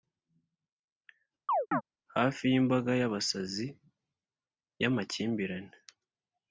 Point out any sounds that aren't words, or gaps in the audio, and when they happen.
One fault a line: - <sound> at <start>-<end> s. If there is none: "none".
- chirp at 1.5-1.8 s